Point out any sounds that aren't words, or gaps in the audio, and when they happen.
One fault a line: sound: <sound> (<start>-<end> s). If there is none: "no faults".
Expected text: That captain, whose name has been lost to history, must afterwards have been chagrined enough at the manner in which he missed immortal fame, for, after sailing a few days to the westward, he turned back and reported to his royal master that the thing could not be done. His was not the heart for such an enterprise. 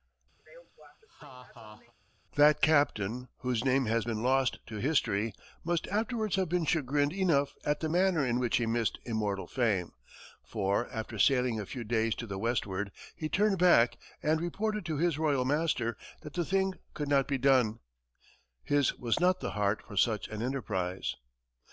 sound: laugh (0.4-1.9 s)